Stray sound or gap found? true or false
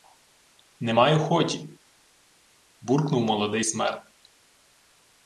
false